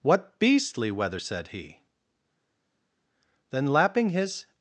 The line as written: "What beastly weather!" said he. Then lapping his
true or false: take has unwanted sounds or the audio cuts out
false